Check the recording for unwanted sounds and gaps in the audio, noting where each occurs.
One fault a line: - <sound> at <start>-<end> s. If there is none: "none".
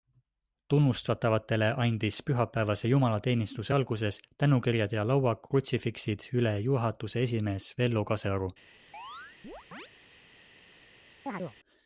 - chirp at 8.9-9.9 s
- chirp at 11.3-11.6 s